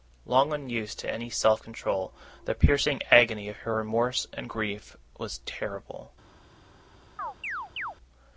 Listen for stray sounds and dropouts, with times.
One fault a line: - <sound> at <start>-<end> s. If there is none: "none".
- chirp at 7.2-8.0 s